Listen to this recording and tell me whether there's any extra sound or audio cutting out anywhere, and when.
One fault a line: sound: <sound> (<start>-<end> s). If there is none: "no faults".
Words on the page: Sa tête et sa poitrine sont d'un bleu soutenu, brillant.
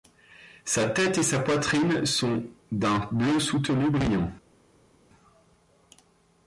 no faults